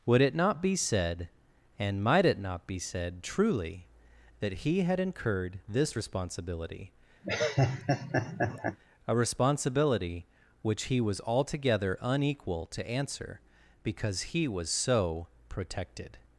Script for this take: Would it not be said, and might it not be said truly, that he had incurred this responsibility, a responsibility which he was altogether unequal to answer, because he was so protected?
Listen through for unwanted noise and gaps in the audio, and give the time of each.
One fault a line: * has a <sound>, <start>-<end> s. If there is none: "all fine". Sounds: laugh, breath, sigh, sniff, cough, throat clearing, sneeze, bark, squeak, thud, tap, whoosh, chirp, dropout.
* has a laugh, 7.2-8.8 s